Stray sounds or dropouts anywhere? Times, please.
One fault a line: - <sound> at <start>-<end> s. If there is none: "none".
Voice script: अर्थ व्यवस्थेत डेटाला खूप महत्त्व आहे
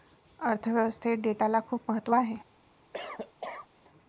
- cough at 2.9-3.7 s